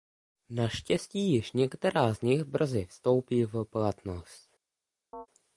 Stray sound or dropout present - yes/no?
yes